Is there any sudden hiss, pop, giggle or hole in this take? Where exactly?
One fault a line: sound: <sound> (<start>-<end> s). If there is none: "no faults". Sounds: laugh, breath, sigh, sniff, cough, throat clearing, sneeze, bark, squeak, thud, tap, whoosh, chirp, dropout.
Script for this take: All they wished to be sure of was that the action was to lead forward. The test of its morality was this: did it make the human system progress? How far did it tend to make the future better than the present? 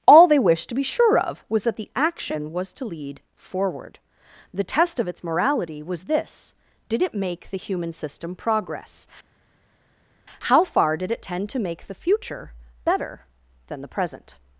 no faults